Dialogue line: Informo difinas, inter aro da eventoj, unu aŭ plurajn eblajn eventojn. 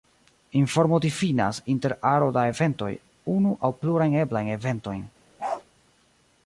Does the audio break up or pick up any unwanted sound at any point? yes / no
yes